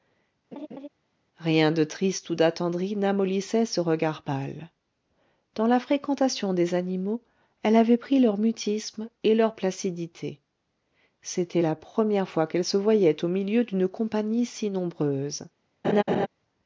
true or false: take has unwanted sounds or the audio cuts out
true